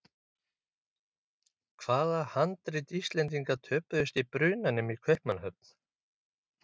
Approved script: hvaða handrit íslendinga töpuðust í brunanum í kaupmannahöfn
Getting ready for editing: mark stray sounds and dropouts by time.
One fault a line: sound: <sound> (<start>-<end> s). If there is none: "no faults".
no faults